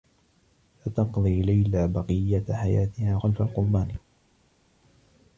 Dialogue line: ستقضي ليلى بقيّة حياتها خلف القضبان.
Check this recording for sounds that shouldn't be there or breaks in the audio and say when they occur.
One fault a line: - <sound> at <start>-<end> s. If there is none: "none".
none